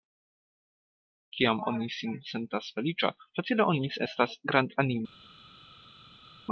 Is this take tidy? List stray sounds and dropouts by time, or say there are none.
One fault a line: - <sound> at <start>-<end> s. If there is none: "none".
none